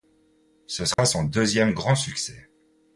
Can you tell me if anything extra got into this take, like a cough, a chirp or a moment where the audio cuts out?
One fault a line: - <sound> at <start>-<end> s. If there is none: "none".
- dropout at 0.9-1.0 s